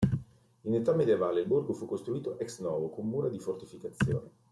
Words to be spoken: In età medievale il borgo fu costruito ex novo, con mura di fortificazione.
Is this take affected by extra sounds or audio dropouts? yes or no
no